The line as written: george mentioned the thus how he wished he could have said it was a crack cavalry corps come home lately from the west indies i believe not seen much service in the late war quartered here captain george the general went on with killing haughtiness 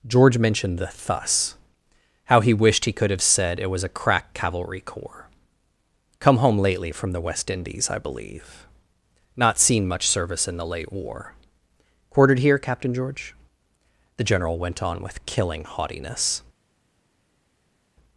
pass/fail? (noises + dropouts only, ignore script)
pass